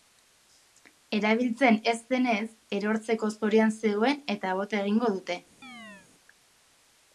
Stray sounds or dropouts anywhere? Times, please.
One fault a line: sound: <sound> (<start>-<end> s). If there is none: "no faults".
sound: chirp (5.6-6.1 s)